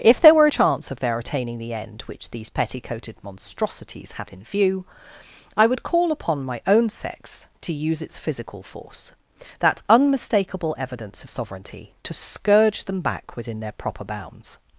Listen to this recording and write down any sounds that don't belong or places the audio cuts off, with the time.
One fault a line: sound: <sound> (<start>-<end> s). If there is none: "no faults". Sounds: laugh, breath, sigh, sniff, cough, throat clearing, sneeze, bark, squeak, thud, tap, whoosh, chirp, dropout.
no faults